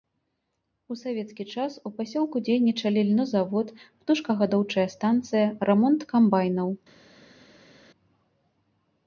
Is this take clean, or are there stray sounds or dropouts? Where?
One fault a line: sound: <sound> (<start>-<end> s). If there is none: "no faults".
no faults